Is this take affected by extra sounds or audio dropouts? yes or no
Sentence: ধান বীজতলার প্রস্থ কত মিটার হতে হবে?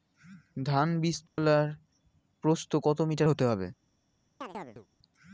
yes